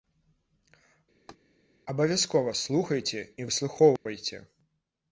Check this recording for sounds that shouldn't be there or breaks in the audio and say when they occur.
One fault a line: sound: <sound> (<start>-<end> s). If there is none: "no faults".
sound: laugh (1.3-1.4 s)
sound: dropout (4.0-4.1 s)